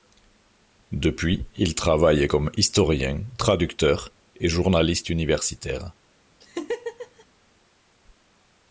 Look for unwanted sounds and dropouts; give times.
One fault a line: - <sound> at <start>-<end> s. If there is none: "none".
- laugh at 6.4-7.3 s